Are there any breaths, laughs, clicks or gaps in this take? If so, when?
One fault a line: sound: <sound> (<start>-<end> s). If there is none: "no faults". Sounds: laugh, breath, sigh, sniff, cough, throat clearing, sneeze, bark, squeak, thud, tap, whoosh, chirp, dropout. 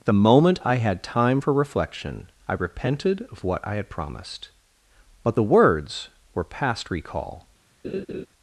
sound: laugh (7.8-8.3 s)